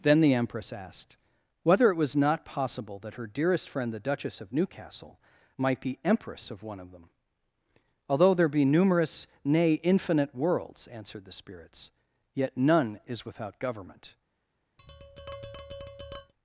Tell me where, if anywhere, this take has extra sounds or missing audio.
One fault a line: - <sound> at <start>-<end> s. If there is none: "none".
- tap at 14.8-16.3 s